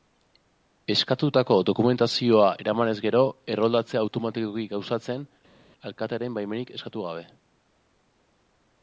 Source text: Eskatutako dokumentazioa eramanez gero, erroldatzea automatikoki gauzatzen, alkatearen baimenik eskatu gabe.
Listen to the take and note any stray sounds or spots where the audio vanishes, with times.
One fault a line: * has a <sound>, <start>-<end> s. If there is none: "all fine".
all fine